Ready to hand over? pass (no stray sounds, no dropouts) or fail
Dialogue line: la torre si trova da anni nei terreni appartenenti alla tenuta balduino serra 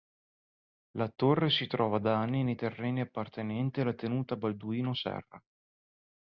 pass